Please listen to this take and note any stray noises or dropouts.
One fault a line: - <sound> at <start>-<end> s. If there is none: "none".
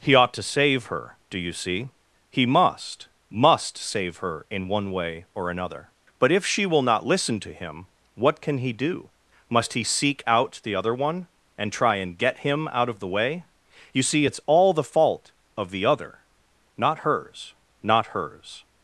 none